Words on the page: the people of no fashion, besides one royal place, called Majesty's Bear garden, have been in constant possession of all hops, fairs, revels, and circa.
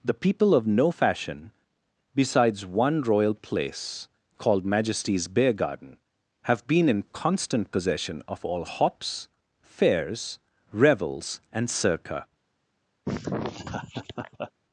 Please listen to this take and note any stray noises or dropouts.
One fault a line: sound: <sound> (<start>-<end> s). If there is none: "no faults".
sound: laugh (13.1-14.5 s)